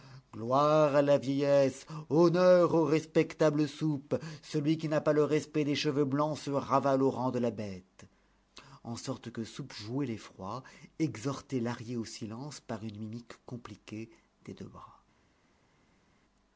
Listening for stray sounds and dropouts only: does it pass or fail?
pass